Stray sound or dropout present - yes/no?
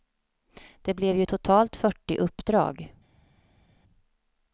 no